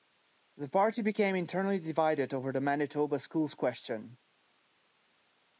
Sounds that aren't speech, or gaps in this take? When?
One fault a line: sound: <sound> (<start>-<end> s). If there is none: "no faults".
no faults